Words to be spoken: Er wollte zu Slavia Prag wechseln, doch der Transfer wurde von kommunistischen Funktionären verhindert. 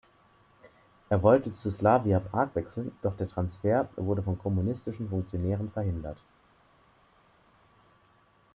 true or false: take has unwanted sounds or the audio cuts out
false